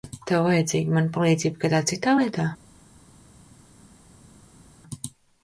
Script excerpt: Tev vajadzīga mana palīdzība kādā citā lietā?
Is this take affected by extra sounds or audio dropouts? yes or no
no